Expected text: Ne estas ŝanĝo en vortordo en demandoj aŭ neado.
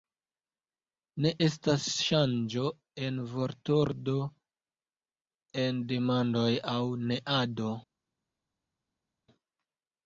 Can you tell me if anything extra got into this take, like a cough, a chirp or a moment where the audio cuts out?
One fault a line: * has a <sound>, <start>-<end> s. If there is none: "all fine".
all fine